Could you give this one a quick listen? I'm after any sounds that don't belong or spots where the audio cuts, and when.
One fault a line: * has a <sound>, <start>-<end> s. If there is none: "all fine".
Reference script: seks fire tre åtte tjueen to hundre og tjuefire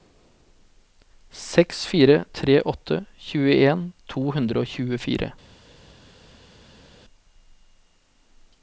all fine